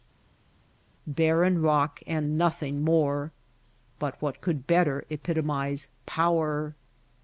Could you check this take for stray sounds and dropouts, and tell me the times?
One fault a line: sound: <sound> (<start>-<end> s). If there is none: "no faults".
no faults